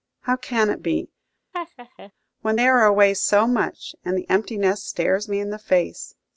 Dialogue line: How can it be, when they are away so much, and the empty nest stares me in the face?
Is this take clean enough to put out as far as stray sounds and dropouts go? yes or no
no